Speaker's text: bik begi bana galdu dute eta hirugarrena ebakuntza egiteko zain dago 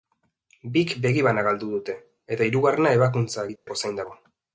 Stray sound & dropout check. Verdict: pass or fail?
fail